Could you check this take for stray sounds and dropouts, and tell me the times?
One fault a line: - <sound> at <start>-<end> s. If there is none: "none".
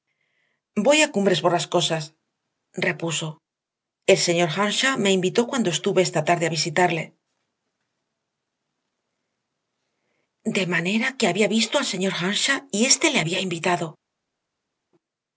none